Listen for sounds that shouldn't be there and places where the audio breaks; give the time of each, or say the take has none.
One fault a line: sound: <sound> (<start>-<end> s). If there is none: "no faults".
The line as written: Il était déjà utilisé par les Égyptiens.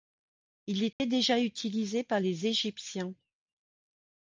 sound: dropout (0.9-1.0 s)